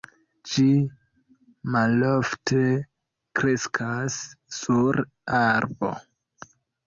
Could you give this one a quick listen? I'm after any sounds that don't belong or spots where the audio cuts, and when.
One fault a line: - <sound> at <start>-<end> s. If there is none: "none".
none